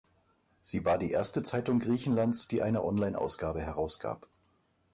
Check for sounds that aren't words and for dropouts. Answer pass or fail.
pass